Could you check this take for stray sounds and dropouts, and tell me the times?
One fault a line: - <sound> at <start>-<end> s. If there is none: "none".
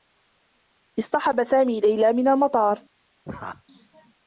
- laugh at 3.2-3.6 s